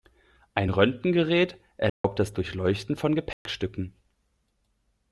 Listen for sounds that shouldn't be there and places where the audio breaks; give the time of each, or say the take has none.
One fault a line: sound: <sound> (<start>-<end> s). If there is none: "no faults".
sound: dropout (1.9-2.0 s)
sound: dropout (3.3-3.5 s)